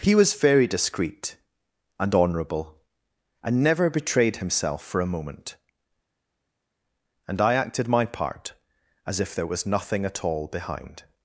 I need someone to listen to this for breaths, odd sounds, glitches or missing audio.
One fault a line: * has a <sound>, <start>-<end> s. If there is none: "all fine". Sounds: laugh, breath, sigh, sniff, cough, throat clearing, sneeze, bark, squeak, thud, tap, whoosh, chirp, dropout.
all fine